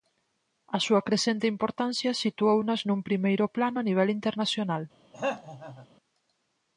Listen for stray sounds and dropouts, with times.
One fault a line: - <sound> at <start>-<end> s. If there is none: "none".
- throat clearing at 5.1-5.9 s